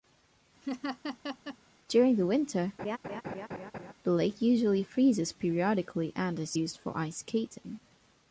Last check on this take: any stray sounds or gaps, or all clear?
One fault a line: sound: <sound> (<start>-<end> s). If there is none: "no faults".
sound: laugh (0.6-1.6 s)
sound: laugh (2.8-3.9 s)